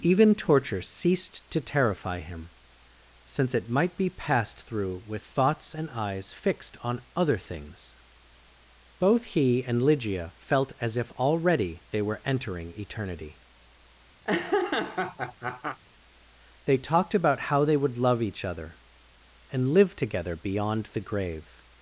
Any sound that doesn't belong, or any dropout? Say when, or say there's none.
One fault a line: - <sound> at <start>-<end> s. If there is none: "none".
- laugh at 14.2-15.8 s